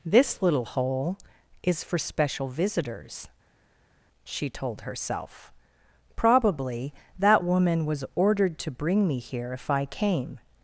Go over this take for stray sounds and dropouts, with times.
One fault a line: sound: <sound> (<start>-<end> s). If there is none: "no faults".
no faults